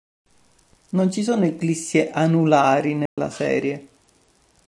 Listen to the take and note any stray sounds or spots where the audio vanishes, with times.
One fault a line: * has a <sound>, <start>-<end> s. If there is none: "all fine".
* has a dropout, 3.1-3.2 s